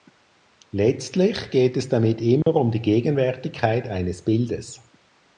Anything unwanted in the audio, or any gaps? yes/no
yes